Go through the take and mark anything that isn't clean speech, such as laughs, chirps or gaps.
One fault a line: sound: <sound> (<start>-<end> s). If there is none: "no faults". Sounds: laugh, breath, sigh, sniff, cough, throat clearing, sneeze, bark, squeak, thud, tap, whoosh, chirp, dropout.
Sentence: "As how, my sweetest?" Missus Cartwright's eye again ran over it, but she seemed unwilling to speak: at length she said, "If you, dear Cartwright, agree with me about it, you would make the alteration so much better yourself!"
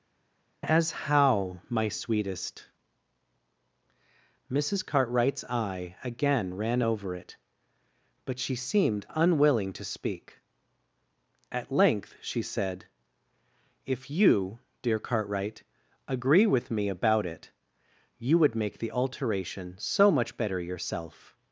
no faults